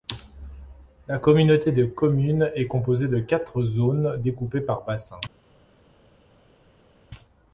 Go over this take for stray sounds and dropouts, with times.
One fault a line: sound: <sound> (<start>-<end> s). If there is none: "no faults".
no faults